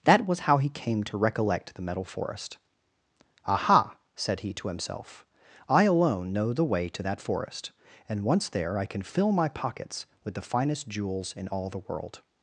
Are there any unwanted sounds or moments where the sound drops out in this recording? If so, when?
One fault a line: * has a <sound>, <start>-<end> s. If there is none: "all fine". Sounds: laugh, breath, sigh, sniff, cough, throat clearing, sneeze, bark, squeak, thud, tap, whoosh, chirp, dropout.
all fine